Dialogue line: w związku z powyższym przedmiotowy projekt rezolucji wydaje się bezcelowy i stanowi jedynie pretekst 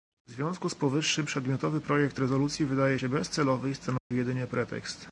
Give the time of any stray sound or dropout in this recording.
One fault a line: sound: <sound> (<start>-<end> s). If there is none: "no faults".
sound: dropout (4.0-4.1 s)